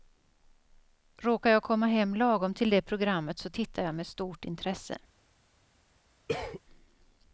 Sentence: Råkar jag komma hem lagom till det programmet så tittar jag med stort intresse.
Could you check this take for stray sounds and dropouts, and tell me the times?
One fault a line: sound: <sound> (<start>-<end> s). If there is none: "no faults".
sound: cough (6.3-6.6 s)